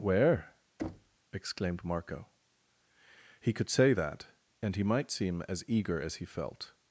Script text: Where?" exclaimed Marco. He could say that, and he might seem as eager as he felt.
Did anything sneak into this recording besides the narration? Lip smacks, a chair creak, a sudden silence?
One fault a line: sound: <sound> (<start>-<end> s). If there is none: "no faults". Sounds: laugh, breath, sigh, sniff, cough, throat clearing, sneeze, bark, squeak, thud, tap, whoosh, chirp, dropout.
sound: thud (0.8-1.2 s)